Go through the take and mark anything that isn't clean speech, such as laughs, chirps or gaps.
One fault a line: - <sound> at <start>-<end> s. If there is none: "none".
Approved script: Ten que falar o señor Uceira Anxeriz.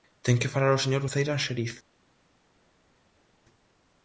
none